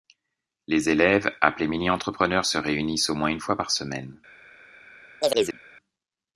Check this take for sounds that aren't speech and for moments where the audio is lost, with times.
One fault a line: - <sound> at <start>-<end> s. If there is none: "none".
- chirp at 5.2-5.6 s